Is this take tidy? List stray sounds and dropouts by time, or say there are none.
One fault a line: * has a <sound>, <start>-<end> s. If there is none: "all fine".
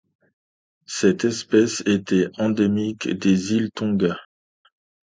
all fine